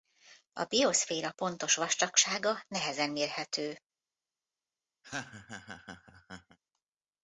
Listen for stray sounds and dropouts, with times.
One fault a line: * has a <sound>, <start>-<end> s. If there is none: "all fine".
* has a laugh, 5.0-6.6 s